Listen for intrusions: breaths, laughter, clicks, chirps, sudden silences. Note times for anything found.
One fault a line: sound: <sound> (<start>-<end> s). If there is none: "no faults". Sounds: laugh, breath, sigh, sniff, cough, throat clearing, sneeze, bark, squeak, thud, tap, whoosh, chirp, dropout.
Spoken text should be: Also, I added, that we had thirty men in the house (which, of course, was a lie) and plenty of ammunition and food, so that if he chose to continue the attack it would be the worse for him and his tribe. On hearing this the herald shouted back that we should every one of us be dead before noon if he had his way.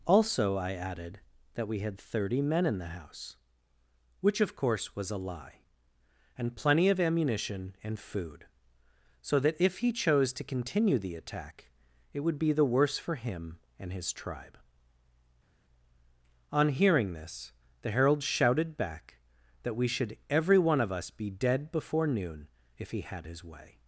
no faults